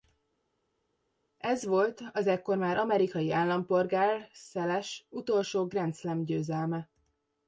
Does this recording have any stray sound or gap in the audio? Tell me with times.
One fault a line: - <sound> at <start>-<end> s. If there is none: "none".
none